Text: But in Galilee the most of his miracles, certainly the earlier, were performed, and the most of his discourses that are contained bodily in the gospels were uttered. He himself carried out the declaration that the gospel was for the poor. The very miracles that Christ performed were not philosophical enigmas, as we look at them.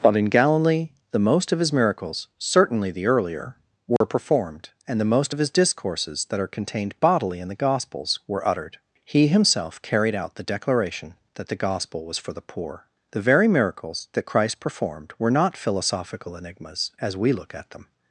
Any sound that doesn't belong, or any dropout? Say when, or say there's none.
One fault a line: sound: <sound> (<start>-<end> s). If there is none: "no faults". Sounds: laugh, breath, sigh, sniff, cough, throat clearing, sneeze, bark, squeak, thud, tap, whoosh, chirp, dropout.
sound: dropout (4.0-4.0 s)